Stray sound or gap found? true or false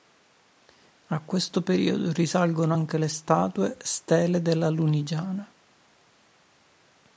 false